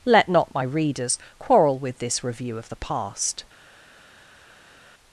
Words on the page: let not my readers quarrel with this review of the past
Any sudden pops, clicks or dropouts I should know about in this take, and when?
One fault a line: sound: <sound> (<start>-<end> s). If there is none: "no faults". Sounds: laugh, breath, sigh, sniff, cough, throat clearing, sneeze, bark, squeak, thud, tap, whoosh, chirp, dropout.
no faults